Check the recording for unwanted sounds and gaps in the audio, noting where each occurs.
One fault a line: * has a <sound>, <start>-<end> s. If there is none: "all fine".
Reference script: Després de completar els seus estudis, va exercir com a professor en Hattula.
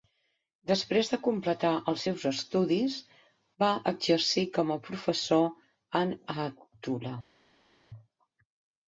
all fine